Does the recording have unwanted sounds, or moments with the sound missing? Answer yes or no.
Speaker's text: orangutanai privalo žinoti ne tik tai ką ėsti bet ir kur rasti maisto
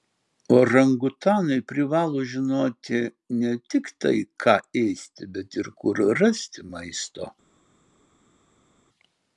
no